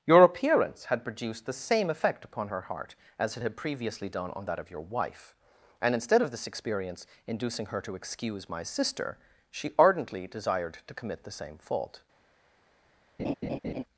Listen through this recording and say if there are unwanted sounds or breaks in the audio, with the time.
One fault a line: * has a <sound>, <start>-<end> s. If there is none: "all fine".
* has a laugh, 13.2-13.8 s